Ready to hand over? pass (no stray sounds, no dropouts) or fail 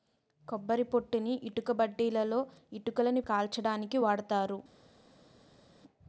pass